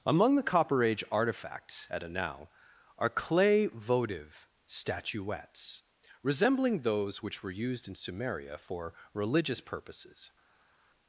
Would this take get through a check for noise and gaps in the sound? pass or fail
pass